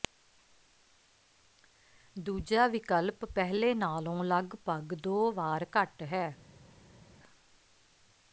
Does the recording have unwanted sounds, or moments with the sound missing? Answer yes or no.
no